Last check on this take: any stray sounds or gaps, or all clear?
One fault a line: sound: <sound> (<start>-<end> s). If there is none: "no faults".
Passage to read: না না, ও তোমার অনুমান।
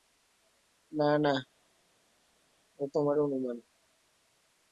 no faults